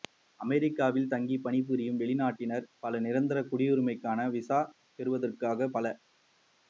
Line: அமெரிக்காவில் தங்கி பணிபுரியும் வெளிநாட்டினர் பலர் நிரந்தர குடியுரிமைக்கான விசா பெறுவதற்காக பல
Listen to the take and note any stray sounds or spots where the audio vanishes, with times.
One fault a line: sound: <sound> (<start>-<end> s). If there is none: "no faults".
no faults